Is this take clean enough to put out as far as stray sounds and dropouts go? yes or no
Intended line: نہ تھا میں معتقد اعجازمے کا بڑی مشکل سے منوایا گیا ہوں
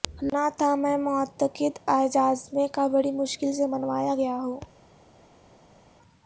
yes